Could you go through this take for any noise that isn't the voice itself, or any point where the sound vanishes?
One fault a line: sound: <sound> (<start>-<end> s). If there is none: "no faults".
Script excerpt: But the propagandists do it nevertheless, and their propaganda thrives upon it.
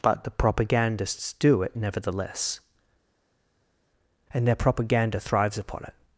no faults